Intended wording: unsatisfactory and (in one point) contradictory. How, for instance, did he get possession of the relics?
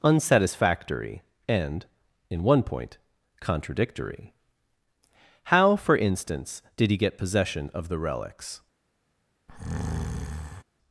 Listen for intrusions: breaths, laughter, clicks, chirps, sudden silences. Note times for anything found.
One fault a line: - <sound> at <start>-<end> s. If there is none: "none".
- breath at 9.5-10.6 s